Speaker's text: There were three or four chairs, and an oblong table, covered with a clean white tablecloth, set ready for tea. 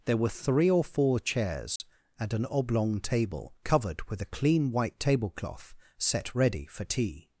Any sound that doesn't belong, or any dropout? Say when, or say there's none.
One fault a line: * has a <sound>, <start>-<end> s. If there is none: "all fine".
* has a dropout, 1.8-1.8 s